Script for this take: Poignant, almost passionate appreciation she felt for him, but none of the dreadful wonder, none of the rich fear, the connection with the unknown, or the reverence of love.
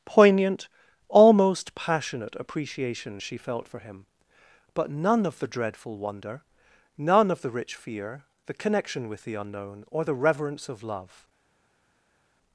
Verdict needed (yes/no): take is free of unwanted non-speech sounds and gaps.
yes